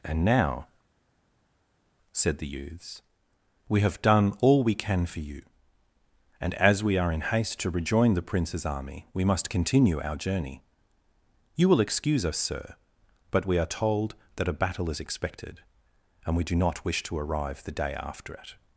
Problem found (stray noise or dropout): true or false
false